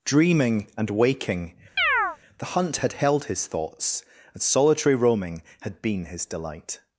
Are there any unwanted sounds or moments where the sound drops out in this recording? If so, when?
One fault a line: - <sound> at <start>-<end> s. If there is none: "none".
- chirp at 1.8-2.2 s